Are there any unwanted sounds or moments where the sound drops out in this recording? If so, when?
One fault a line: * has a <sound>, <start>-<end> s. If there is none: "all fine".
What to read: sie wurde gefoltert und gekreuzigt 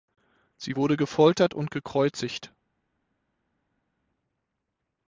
all fine